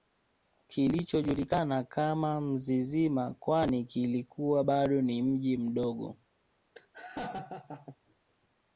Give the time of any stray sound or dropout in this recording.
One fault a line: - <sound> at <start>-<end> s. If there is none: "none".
- laugh at 6.7-8.0 s